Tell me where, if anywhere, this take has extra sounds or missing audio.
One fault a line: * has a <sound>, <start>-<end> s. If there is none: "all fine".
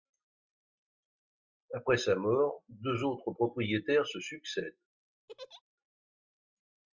* has a laugh, 5.3-5.6 s